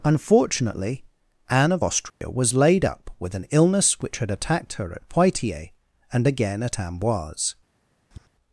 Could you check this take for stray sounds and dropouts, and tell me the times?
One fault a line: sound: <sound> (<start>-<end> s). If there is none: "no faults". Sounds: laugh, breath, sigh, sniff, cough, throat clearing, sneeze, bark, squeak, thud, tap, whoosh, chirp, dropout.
sound: dropout (2.1-2.2 s)
sound: tap (8.1-8.3 s)